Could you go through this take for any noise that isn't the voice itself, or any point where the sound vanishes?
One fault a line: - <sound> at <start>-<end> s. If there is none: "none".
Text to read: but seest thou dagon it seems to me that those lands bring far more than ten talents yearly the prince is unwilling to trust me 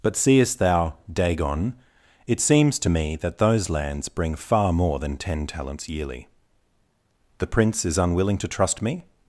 none